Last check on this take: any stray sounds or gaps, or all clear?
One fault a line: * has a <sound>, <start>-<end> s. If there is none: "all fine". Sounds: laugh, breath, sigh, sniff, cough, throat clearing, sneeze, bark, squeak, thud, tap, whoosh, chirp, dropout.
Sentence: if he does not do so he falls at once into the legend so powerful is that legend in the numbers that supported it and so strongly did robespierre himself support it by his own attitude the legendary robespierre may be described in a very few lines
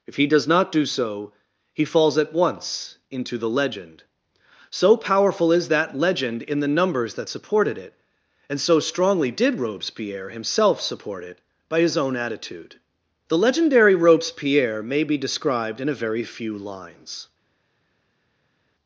all fine